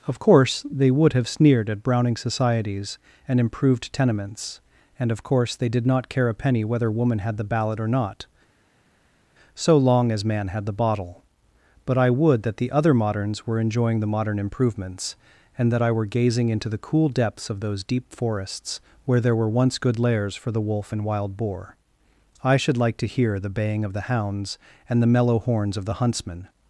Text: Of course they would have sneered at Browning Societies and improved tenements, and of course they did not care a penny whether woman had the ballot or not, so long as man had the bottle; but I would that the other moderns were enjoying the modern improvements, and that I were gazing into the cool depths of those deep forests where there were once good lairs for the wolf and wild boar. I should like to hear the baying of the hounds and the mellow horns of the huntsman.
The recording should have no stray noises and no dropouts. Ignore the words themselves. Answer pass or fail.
pass